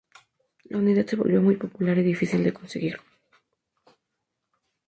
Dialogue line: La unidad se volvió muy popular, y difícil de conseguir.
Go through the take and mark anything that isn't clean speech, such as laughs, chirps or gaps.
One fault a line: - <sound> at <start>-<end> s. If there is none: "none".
none